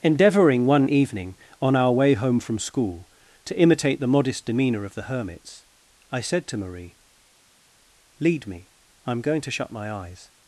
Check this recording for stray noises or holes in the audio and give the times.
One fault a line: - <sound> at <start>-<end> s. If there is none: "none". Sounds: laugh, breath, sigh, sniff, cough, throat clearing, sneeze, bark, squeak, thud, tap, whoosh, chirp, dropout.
none